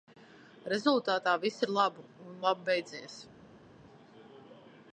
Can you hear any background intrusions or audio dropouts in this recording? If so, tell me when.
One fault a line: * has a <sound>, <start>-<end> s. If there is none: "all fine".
all fine